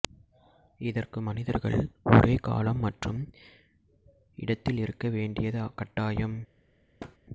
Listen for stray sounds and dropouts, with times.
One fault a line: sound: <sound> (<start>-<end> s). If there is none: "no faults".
sound: thud (7.0-7.2 s)